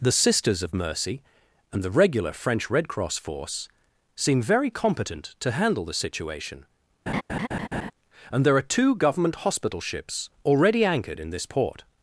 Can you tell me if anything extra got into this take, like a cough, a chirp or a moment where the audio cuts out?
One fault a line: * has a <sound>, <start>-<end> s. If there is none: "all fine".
* has a laugh, 7.1-7.9 s